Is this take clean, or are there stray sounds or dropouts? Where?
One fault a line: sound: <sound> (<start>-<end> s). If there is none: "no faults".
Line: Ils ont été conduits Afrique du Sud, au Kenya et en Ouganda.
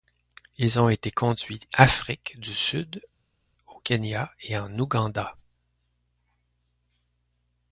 no faults